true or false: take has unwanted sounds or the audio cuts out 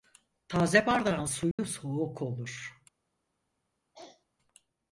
true